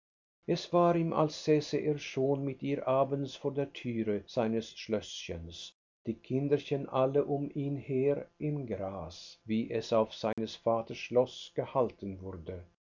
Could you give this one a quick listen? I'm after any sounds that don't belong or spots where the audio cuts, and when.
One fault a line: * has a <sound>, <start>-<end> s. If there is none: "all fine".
* has a dropout, 10.3-10.4 s